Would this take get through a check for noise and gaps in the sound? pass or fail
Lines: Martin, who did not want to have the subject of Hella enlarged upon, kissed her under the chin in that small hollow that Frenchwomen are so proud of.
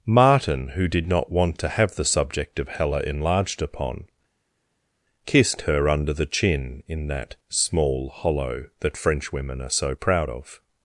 pass